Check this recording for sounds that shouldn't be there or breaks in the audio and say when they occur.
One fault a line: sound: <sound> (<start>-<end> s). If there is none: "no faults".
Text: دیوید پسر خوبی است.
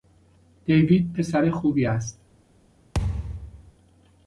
sound: thud (2.9-3.7 s)